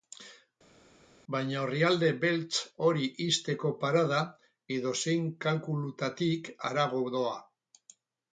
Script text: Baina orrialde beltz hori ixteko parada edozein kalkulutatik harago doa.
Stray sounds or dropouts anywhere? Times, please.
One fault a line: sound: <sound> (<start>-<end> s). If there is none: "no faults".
no faults